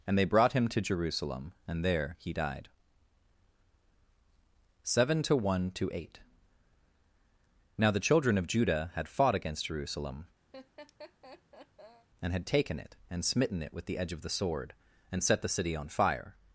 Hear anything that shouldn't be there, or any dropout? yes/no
yes